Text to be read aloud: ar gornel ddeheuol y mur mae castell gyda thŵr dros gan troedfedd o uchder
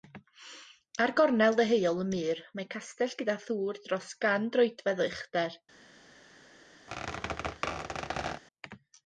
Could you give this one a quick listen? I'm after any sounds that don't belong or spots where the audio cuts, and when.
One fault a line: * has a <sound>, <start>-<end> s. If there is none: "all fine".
* has a squeak, 6.9-8.4 s